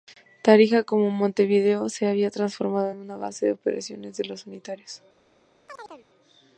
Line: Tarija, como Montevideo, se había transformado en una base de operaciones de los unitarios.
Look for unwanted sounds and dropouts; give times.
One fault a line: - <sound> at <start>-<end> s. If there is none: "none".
- chirp at 5.7-6.1 s